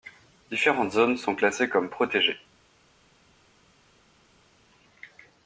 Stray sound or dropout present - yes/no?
no